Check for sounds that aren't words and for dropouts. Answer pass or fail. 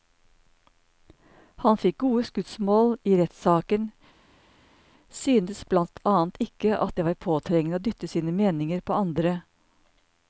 pass